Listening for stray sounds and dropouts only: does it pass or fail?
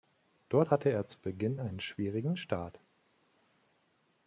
pass